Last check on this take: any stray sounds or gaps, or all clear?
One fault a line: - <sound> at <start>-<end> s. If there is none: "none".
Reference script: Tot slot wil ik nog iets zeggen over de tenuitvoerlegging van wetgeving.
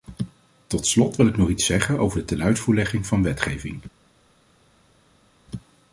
none